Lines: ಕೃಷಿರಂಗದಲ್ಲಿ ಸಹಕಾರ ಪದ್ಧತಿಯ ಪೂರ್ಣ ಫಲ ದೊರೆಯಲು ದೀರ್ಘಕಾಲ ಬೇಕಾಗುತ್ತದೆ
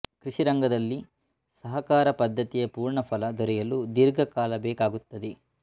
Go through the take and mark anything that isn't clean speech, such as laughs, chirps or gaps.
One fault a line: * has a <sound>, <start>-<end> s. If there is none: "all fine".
all fine